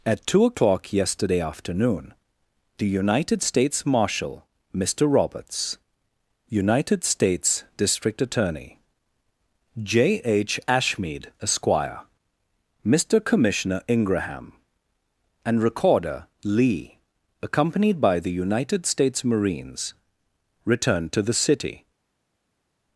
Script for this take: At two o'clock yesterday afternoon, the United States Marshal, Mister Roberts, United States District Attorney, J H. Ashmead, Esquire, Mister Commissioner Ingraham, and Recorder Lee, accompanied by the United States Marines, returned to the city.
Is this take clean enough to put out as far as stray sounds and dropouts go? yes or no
yes